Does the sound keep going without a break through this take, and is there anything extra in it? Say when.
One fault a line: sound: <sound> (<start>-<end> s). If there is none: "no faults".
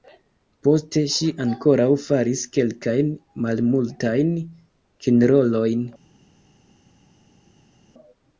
no faults